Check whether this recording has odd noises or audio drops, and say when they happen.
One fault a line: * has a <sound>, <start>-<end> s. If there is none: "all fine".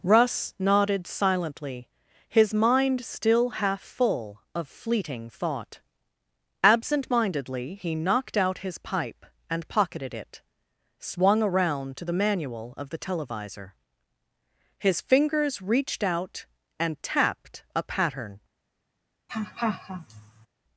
* has a laugh, 19.3-20.5 s